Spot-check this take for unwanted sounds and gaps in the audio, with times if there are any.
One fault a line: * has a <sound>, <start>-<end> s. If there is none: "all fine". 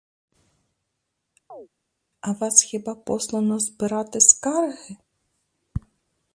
* has a chirp, 1.5-1.7 s